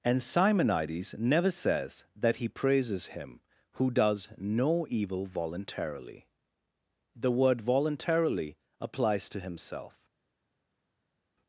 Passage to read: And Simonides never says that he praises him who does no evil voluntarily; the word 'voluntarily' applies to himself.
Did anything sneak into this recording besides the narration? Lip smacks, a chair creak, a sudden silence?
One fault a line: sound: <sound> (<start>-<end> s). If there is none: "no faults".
no faults